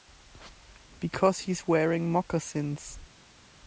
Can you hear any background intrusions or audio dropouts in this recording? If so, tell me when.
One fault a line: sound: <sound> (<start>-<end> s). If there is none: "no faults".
no faults